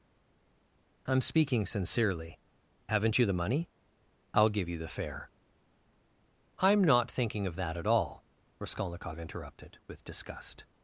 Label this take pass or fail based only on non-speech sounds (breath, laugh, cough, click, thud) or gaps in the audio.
pass